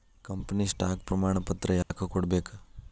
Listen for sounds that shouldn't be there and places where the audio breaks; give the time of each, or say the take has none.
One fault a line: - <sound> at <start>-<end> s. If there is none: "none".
- dropout at 1.8-1.9 s